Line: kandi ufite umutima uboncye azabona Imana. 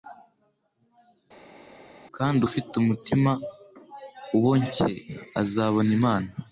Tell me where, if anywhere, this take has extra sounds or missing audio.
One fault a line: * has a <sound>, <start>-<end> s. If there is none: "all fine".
all fine